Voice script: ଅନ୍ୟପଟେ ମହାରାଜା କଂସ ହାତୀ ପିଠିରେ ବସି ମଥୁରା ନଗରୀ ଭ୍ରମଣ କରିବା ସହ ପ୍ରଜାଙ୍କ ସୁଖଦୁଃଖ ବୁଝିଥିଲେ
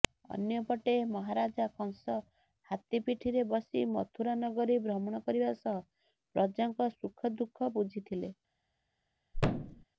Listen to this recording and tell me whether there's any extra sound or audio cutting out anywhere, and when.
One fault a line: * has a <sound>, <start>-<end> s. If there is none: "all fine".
* has a thud, 9.3-9.8 s